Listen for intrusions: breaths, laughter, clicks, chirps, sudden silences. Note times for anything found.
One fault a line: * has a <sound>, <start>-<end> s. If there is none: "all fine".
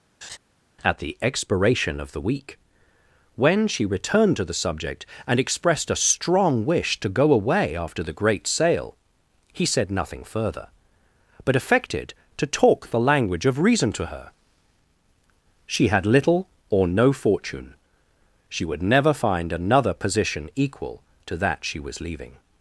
* has a laugh, 0.2-0.4 s